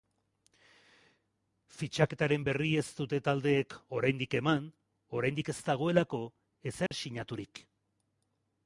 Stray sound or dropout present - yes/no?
yes